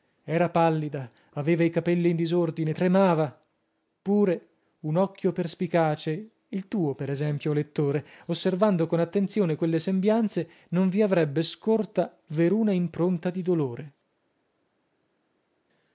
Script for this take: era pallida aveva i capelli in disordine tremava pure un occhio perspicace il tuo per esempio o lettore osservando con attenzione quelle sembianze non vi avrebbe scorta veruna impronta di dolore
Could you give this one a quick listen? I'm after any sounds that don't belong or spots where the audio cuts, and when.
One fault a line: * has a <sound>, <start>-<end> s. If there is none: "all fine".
all fine